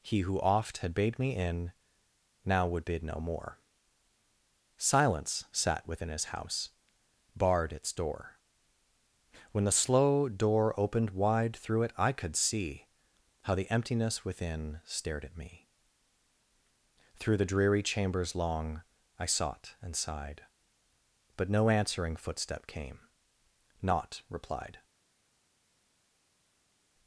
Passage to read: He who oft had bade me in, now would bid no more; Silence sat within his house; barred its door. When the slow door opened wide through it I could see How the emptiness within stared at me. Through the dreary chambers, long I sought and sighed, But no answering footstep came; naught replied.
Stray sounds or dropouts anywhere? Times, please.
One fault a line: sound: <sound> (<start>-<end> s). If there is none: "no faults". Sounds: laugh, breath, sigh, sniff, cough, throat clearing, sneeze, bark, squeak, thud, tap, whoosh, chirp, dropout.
no faults